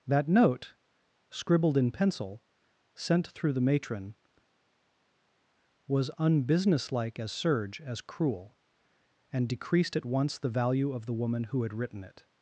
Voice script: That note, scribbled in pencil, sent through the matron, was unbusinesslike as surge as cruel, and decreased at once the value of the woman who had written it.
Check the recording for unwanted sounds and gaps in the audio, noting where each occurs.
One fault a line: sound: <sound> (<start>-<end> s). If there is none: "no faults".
no faults